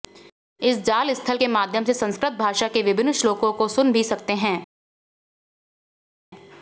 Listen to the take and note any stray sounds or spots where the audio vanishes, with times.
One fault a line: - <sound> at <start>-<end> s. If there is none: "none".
none